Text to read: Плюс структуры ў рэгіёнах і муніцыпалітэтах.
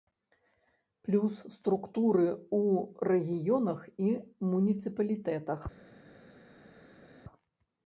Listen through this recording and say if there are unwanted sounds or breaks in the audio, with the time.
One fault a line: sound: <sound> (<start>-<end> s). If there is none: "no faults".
no faults